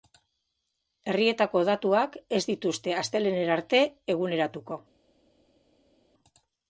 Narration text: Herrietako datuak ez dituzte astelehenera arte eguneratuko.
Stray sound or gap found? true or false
false